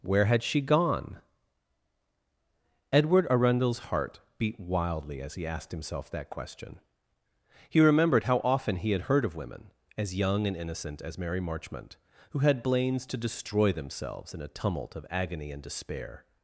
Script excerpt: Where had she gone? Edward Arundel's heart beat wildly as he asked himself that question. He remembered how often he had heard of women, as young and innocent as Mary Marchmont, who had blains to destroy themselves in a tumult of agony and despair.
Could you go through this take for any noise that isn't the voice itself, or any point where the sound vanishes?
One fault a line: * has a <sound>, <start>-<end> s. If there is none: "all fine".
all fine